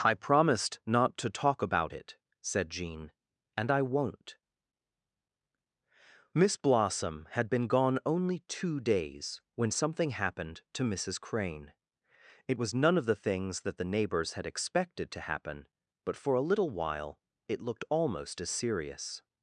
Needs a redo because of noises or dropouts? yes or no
no